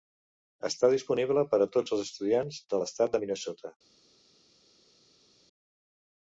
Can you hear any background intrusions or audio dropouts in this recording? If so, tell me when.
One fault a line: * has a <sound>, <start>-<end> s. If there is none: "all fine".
all fine